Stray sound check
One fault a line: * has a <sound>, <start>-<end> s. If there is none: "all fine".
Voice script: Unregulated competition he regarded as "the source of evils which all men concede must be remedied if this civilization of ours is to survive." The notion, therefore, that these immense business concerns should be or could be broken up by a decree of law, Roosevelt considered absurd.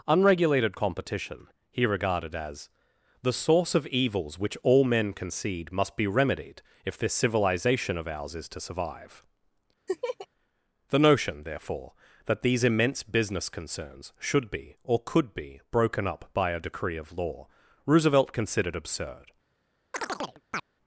* has a laugh, 9.9-10.3 s
* has a chirp, 19.9-20.6 s